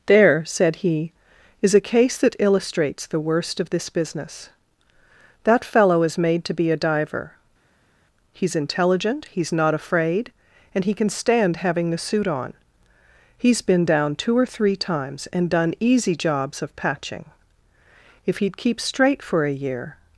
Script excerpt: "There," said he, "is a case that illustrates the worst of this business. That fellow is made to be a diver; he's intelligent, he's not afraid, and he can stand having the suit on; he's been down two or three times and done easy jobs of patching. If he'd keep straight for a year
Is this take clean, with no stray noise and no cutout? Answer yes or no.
yes